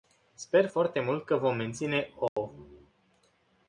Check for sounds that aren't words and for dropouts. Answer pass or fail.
fail